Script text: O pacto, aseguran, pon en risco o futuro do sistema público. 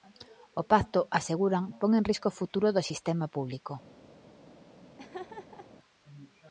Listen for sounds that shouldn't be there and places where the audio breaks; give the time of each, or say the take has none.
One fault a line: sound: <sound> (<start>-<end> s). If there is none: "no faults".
sound: laugh (5.0-5.7 s)